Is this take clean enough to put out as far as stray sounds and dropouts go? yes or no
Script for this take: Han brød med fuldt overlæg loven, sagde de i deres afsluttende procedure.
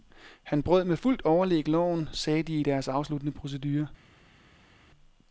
yes